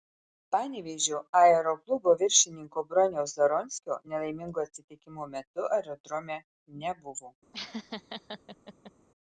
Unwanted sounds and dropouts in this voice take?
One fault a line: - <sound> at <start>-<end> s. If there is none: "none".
- laugh at 7.5-8.9 s